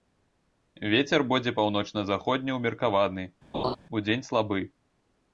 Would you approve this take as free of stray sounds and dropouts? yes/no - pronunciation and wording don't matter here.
no